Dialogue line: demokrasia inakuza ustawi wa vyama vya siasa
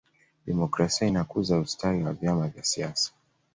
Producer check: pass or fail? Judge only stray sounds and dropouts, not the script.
pass